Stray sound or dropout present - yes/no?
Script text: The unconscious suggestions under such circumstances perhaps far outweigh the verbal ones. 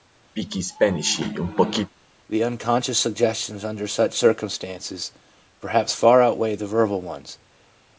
yes